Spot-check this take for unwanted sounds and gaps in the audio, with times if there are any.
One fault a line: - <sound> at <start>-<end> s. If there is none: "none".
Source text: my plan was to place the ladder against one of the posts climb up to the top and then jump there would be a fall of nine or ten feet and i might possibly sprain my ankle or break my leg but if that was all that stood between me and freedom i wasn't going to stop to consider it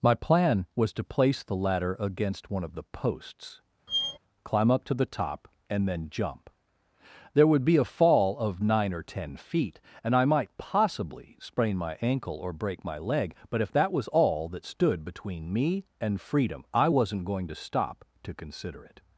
- squeak at 3.9-4.2 s